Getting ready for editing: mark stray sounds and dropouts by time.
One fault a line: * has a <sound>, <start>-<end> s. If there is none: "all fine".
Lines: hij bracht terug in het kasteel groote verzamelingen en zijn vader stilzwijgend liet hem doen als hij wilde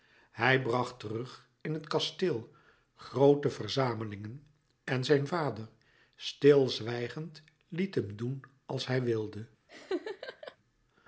* has a laugh, 9.7-10.6 s